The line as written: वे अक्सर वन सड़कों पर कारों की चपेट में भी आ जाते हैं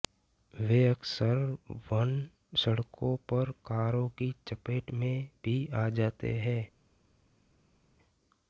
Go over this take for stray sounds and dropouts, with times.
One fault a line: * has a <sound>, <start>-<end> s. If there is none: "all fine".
all fine